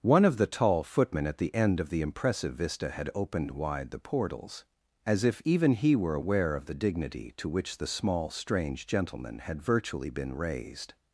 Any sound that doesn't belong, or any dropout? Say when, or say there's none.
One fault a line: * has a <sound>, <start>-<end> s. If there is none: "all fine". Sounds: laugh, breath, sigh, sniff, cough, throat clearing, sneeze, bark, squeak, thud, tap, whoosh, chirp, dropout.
all fine